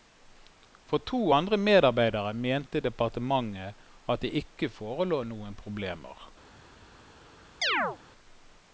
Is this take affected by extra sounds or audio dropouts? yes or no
yes